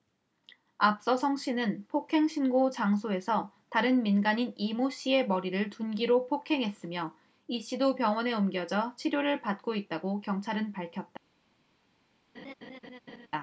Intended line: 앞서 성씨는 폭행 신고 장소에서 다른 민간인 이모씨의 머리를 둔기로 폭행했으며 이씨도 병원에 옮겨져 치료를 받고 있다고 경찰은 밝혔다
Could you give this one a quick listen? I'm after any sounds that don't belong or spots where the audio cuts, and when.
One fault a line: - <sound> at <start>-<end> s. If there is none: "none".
- laugh at 12.3-13.3 s